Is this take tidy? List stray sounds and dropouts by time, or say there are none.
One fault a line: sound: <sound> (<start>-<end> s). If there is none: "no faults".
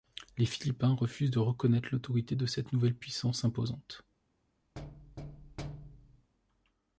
sound: thud (4.8-6.3 s)